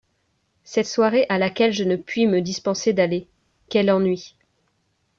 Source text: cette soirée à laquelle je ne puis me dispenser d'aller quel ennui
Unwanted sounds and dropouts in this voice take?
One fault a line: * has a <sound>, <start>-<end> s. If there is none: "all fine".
all fine